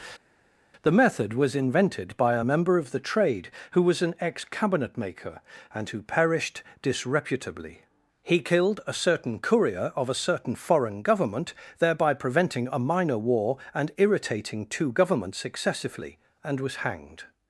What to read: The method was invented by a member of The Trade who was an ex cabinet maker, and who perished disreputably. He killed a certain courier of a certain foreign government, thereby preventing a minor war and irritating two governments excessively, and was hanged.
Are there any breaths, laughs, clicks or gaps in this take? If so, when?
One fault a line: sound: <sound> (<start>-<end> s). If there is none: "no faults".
no faults